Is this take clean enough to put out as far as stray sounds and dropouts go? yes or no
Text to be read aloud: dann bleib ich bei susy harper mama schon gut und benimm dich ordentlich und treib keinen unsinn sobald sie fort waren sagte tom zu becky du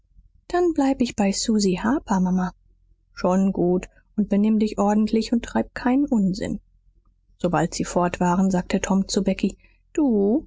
yes